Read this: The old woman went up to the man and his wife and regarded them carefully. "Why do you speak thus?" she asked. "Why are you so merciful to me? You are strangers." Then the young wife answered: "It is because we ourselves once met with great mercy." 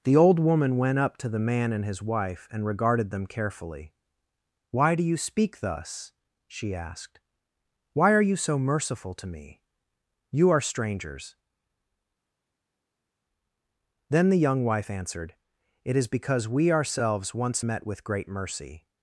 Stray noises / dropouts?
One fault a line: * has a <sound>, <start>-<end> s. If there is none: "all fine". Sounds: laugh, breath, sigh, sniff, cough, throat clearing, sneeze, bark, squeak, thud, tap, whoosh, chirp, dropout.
all fine